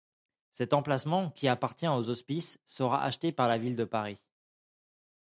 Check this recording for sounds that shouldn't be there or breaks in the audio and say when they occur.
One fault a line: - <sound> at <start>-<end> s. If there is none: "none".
none